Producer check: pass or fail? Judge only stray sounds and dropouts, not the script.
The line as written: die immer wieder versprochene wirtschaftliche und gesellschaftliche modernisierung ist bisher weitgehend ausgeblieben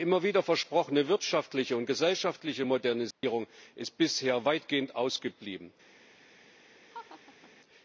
fail